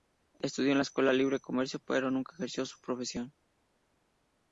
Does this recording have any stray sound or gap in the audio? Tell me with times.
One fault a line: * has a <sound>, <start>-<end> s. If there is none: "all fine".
all fine